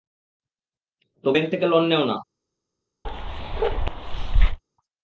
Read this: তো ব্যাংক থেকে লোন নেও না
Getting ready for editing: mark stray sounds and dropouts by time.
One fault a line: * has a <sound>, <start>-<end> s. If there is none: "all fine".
* has a bark, 3.0-4.6 s